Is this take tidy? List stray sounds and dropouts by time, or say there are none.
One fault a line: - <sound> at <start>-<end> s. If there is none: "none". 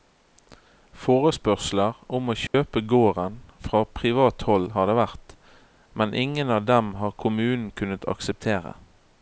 - dropout at 2.5-2.5 s